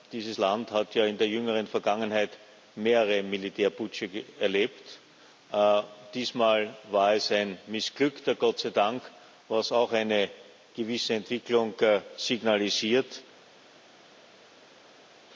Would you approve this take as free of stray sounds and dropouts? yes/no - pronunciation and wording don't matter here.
yes